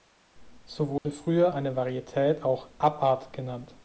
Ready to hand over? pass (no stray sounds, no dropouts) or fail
fail